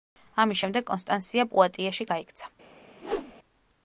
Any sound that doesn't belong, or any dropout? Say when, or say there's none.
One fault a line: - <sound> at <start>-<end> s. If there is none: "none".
- whoosh at 3.0-3.3 s